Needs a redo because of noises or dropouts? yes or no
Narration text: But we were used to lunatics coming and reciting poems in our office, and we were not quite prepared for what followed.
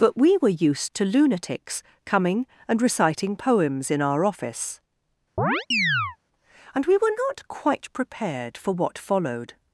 yes